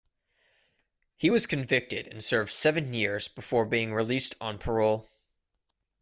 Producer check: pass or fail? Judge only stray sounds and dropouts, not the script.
pass